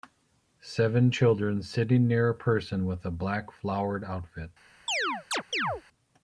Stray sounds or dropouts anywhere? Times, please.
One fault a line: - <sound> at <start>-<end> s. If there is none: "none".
- chirp at 4.9-5.8 s